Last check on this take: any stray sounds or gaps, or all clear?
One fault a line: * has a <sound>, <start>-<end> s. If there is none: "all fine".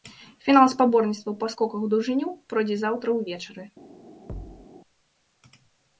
* has a thud, 4.3-4.7 s